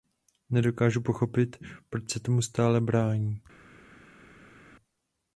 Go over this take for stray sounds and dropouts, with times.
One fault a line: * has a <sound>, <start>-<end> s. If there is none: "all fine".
all fine